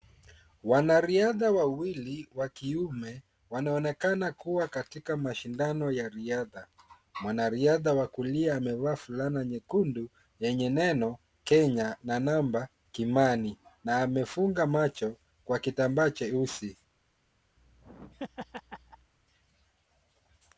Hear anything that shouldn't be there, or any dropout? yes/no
yes